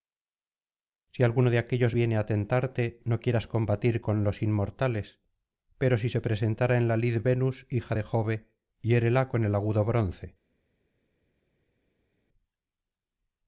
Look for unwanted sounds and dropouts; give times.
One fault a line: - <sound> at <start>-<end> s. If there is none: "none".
none